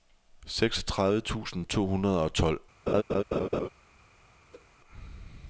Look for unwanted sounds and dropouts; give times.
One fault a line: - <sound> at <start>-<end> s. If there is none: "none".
- laugh at 2.9-3.7 s
- whoosh at 4.5-4.7 s